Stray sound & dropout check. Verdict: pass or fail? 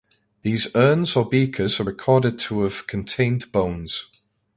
pass